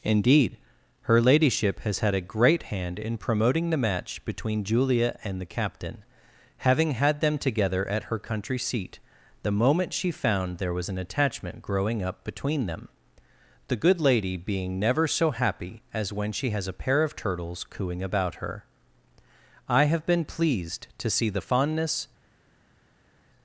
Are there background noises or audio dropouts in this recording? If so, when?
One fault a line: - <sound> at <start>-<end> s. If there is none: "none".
none